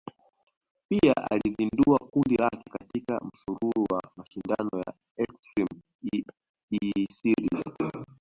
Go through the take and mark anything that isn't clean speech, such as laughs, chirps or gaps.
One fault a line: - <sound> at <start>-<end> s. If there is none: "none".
none